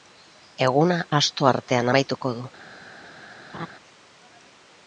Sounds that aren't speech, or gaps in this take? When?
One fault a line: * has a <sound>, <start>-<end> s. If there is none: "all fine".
* has a laugh, 3.5-3.7 s